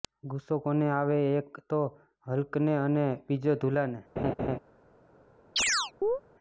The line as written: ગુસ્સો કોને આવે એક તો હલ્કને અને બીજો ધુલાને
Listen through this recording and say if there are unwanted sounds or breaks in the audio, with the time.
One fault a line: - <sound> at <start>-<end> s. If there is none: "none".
- laugh at 4.2-4.6 s
- chirp at 5.6-6.2 s